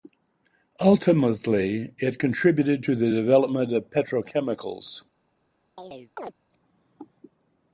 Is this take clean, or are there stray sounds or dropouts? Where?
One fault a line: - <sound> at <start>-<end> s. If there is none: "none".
- chirp at 5.8-6.3 s